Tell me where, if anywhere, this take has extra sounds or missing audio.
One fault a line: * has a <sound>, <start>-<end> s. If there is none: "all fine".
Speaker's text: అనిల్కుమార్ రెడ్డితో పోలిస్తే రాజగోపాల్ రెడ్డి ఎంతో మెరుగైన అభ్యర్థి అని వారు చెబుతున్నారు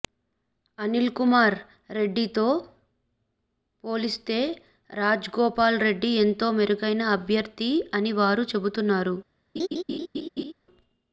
* has a laugh, 9.6-10.5 s